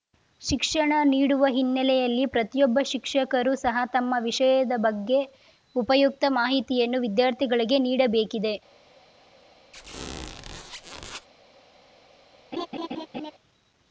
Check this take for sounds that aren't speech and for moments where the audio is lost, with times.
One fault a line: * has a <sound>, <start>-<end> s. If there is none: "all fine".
* has a squeak, 9.7-11.3 s
* has a laugh, 12.5-13.3 s